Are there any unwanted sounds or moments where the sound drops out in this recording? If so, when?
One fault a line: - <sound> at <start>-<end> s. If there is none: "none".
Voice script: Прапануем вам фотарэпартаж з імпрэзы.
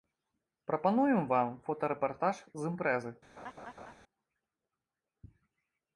- laugh at 3.4-3.9 s